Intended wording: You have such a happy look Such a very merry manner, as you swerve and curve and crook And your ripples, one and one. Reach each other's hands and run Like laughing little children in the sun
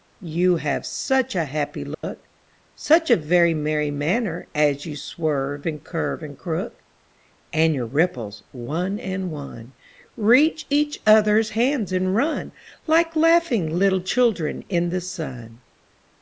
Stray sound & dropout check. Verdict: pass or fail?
fail